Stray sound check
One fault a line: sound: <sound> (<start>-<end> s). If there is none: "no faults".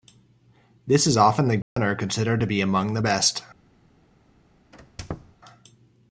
sound: dropout (1.6-1.8 s)
sound: squeak (4.7-5.4 s)